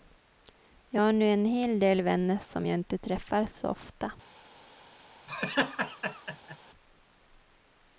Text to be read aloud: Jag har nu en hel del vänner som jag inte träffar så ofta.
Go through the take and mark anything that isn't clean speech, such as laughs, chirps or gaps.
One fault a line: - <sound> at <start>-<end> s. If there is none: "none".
- laugh at 5.3-6.6 s